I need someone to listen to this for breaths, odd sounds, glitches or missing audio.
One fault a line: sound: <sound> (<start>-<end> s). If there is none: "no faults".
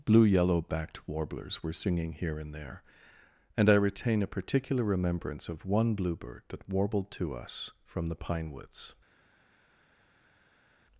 no faults